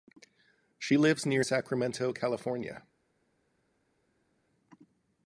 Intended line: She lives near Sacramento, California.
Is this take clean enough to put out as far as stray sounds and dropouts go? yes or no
yes